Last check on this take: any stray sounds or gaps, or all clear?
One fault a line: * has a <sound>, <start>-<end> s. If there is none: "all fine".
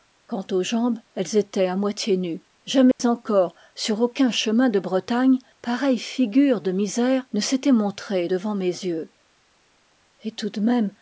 * has a dropout, 2.9-3.0 s